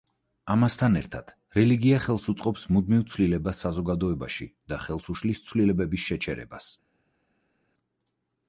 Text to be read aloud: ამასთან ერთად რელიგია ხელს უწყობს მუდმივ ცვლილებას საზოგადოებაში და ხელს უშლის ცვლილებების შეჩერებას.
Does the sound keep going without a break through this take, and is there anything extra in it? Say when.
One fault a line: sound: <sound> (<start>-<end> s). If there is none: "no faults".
no faults